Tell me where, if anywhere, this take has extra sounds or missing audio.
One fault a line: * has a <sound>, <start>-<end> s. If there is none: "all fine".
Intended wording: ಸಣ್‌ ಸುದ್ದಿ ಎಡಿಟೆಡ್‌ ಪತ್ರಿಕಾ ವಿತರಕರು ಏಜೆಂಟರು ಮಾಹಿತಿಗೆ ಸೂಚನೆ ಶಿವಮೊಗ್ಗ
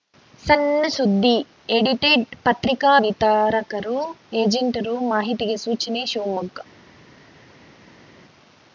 all fine